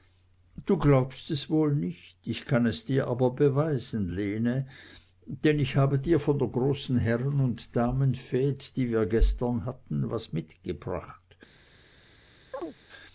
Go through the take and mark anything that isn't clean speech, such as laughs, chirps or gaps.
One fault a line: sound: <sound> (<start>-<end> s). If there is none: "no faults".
sound: chirp (12.5-12.8 s)